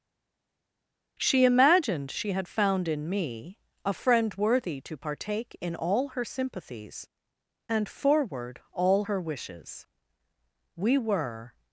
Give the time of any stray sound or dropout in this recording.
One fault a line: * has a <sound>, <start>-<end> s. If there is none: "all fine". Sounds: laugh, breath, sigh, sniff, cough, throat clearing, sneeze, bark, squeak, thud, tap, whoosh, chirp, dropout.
all fine